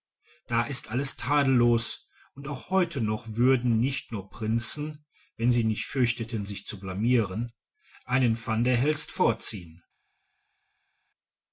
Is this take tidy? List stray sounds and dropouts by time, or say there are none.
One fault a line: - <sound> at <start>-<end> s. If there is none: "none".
none